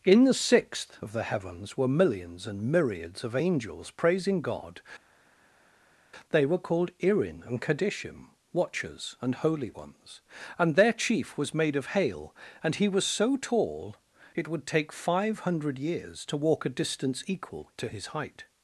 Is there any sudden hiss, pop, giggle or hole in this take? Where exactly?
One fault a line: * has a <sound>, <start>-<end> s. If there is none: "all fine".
all fine